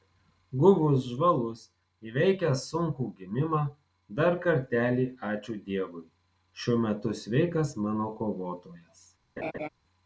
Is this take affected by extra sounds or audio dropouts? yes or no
yes